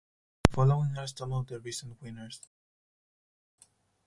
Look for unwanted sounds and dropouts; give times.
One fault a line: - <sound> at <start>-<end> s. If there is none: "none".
none